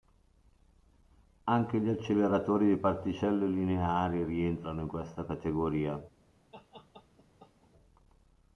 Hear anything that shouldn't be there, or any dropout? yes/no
yes